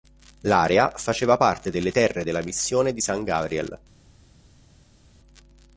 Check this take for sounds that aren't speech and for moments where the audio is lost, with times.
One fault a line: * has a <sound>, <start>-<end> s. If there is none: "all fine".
all fine